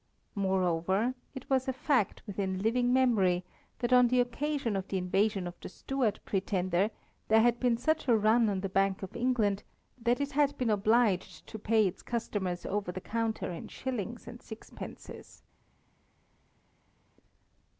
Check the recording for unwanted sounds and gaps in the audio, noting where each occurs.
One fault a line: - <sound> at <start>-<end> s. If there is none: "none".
none